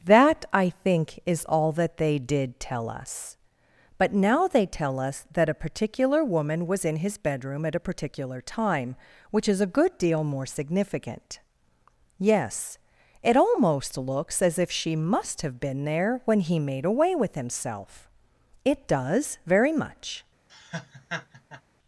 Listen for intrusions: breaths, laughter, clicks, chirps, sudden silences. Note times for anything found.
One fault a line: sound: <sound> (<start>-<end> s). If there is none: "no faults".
sound: laugh (20.5-21.6 s)